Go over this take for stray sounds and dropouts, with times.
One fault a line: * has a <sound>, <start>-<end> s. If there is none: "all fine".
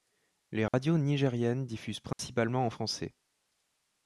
* has a dropout, 0.7-0.7 s
* has a dropout, 2.1-2.2 s